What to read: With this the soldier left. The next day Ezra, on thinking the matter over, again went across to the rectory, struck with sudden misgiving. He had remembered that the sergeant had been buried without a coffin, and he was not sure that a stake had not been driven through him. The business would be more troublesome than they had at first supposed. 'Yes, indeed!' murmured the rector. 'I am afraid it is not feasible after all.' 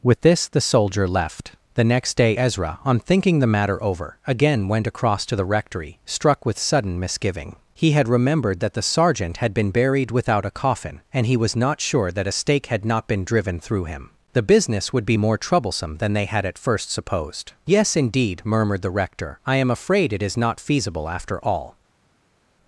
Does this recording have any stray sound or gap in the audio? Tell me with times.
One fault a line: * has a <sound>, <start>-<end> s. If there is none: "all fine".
all fine